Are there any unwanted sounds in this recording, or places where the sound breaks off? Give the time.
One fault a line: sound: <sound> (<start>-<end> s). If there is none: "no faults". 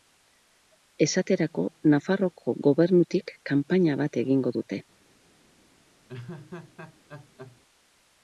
sound: laugh (6.1-7.6 s)